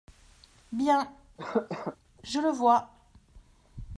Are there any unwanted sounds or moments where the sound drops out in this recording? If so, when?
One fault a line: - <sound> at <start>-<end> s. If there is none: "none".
- cough at 1.4-2.0 s